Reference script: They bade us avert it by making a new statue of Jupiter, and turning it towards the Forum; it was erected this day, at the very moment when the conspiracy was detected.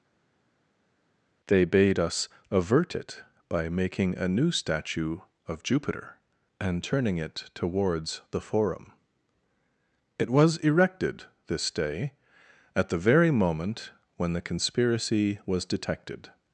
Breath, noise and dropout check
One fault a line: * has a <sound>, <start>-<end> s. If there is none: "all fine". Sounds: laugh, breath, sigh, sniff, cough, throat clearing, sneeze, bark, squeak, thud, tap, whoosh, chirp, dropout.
all fine